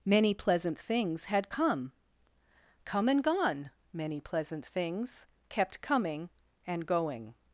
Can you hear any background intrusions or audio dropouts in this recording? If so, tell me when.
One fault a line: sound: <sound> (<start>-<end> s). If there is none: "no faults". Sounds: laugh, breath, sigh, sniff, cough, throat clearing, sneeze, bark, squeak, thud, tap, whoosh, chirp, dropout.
no faults